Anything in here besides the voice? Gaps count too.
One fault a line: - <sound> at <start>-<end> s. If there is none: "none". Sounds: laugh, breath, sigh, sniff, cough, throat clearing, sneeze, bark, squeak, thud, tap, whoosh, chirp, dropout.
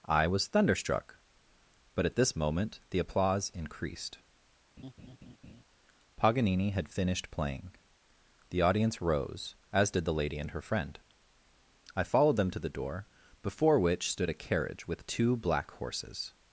- laugh at 4.8-5.6 s